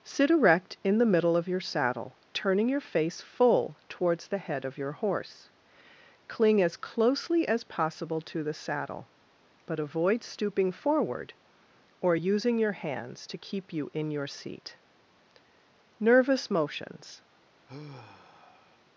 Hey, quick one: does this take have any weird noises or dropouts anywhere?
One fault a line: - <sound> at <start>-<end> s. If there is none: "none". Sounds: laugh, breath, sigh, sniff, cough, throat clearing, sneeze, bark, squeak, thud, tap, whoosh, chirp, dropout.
- sigh at 17.7-18.8 s